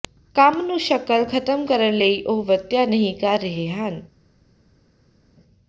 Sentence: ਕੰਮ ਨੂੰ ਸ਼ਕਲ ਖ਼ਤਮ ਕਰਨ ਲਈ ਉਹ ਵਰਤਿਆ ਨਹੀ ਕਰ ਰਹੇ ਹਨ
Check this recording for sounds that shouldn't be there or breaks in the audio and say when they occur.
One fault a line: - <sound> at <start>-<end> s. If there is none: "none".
none